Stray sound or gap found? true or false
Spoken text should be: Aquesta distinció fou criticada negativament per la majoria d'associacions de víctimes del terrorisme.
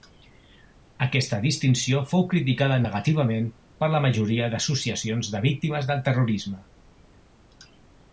false